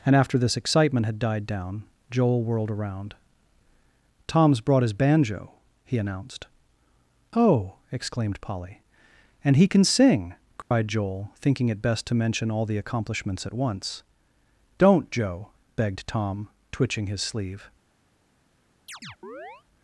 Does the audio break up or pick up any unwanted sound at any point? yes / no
yes